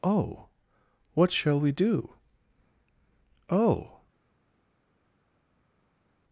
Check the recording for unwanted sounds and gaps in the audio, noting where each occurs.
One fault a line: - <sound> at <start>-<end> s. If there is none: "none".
none